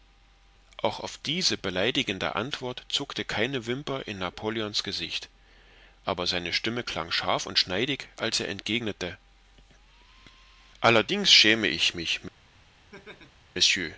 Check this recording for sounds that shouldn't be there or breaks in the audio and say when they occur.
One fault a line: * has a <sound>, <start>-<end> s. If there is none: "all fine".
* has a laugh, 12.9-13.5 s